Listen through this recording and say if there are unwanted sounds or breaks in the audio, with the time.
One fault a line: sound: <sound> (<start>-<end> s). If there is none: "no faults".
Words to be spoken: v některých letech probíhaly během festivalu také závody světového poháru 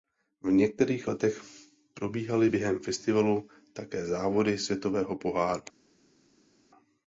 no faults